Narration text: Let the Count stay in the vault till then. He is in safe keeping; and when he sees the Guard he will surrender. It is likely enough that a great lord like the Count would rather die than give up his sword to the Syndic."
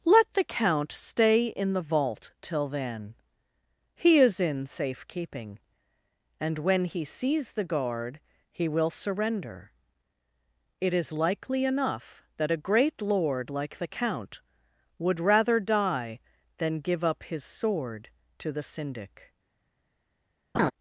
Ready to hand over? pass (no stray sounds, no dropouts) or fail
fail